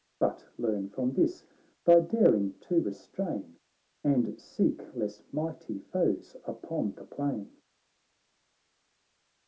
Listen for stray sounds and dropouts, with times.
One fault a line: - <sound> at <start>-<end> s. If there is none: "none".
none